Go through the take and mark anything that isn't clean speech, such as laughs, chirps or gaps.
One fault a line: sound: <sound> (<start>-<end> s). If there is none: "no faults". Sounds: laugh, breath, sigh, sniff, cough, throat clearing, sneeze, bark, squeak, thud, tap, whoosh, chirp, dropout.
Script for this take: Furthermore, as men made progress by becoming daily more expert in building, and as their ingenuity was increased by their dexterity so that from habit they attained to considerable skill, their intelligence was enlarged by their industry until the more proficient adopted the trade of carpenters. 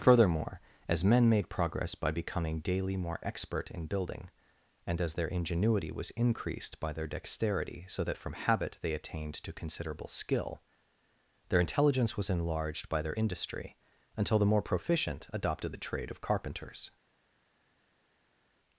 no faults